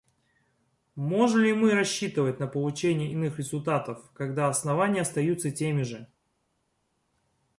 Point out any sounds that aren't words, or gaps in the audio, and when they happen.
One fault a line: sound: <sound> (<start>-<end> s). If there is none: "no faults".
no faults